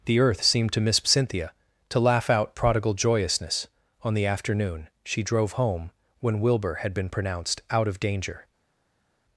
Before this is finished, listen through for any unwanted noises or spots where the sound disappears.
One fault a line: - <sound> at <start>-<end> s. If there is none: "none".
none